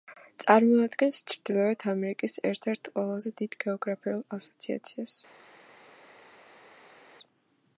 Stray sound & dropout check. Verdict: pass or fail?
pass